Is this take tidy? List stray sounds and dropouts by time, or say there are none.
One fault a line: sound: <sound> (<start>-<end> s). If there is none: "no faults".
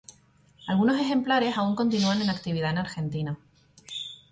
no faults